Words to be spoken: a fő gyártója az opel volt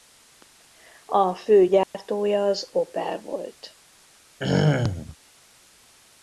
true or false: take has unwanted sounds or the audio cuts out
true